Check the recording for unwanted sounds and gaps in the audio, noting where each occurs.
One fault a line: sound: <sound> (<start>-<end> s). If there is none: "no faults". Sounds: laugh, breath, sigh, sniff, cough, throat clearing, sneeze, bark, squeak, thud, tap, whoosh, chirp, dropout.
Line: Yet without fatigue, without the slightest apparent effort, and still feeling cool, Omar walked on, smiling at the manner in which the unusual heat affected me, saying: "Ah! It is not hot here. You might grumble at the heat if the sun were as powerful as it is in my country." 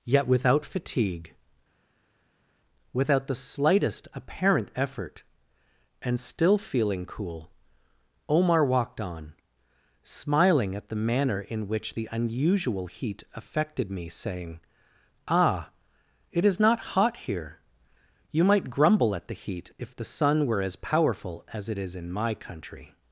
no faults